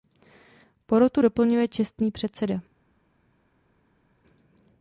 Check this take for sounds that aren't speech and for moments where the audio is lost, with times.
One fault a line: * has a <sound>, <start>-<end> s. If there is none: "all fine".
all fine